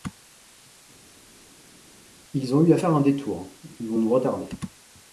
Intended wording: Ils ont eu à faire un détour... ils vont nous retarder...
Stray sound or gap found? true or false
false